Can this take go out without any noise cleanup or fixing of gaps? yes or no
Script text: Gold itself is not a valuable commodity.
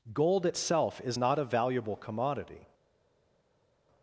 yes